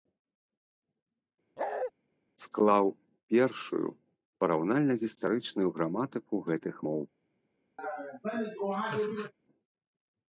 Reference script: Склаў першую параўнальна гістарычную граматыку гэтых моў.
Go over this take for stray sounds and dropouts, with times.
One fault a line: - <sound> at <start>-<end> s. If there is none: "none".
- bark at 1.6-1.9 s
- laugh at 7.8-9.3 s